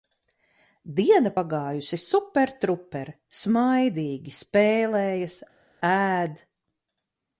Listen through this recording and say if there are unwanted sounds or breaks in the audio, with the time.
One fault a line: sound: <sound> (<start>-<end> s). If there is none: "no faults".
no faults